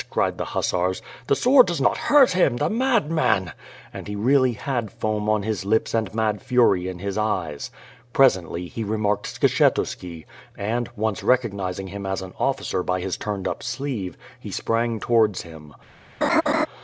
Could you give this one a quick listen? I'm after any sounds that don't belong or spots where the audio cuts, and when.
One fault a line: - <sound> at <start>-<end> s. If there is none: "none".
- laugh at 16.2-16.7 s